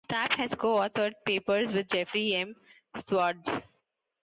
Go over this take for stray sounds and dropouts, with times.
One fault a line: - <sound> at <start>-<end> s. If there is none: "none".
none